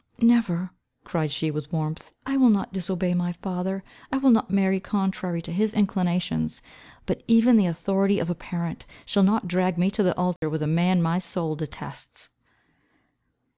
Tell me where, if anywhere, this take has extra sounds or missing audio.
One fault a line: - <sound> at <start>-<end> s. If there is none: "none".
- dropout at 10.4-10.4 s